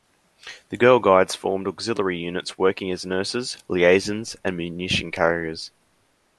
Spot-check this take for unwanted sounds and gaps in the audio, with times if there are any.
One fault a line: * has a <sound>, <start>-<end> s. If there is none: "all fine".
all fine